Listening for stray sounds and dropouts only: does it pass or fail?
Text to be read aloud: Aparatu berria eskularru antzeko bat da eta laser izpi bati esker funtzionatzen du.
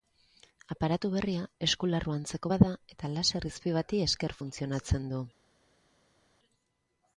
pass